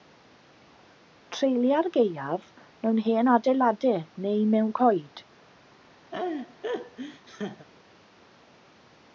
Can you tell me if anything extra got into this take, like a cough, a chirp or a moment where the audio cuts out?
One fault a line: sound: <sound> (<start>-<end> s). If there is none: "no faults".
sound: laugh (6.1-7.7 s)